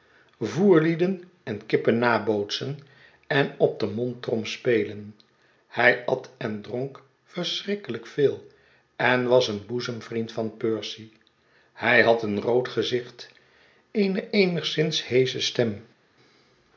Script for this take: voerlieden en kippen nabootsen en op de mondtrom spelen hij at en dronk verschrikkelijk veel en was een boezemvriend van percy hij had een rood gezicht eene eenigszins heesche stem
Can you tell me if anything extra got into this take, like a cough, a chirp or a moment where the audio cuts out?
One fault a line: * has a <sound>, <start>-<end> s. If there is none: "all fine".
all fine